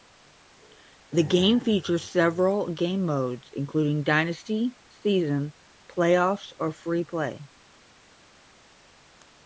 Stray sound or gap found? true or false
false